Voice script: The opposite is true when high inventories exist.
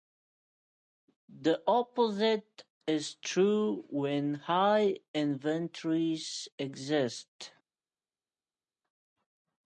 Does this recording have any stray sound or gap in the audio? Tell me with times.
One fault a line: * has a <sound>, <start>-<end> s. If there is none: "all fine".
all fine